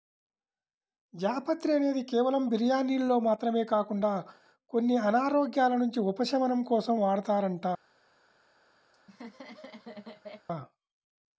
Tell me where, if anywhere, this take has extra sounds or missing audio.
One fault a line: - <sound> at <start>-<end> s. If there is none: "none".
- laugh at 8.9-10.5 s